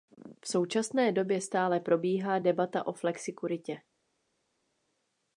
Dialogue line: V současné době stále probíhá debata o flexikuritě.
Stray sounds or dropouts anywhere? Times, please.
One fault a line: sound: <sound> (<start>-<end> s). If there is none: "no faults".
no faults